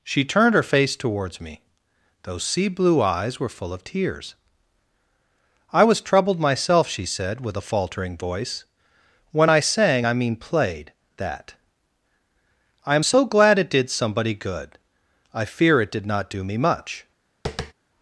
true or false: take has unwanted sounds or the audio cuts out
true